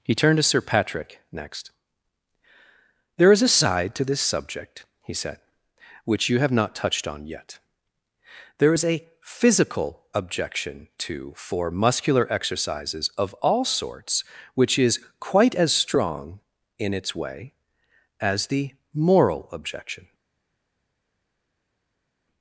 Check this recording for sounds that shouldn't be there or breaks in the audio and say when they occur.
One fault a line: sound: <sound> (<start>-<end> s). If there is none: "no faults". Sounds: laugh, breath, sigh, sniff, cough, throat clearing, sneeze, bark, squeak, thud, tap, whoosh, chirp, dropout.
no faults